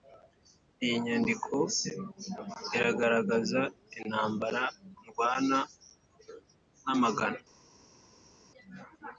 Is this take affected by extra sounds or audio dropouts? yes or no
no